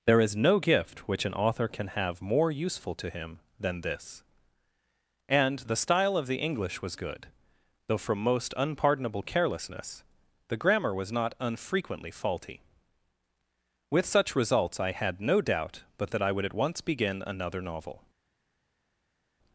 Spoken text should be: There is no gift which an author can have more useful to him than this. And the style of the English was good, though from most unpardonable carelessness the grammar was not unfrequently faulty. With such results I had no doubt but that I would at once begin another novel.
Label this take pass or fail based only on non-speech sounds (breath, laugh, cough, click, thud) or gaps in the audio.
pass